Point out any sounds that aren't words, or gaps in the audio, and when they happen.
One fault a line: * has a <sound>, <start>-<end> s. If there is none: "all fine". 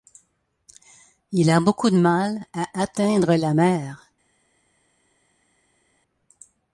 all fine